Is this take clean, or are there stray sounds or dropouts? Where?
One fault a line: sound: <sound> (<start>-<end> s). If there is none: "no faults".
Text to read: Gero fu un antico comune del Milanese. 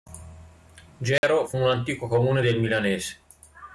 sound: dropout (1.2-1.2 s)